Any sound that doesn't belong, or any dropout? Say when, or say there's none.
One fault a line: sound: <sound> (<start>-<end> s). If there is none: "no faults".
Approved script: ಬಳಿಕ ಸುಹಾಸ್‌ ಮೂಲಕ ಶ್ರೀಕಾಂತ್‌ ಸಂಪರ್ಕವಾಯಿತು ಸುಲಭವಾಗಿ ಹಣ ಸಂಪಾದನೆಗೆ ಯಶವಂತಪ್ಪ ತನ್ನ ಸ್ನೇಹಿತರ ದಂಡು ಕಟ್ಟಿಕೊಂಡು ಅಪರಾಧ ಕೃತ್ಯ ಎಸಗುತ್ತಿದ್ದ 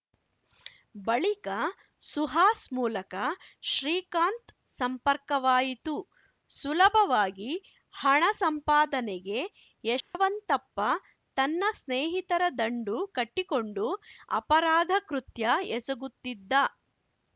sound: dropout (10.0-10.1 s)